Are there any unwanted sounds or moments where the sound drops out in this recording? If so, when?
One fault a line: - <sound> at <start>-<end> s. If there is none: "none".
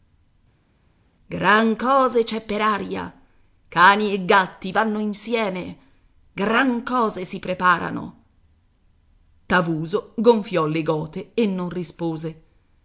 none